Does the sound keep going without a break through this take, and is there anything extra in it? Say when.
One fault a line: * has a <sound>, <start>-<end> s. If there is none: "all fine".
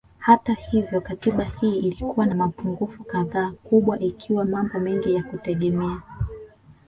all fine